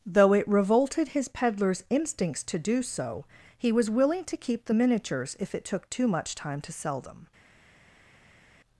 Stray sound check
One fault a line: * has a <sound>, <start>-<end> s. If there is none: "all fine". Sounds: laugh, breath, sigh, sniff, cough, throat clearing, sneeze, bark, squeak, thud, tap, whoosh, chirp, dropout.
all fine